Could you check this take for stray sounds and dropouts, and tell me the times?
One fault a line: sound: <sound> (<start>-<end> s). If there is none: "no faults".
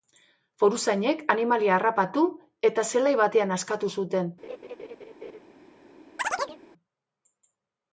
sound: laugh (4.4-5.4 s)
sound: chirp (6.2-6.6 s)